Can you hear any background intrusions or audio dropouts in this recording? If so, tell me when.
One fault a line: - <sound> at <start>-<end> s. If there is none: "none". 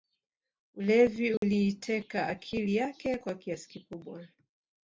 - dropout at 1.4-1.4 s